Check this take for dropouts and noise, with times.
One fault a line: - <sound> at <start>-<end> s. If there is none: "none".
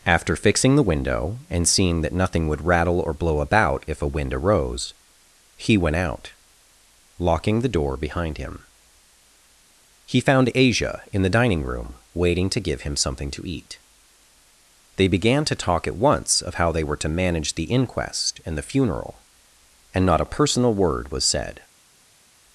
none